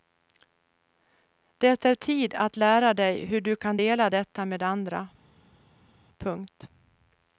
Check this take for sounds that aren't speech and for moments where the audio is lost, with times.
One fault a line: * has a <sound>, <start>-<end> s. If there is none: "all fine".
all fine